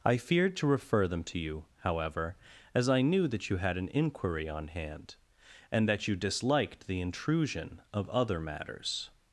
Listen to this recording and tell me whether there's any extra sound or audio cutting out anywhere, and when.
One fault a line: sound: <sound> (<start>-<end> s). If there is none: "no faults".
no faults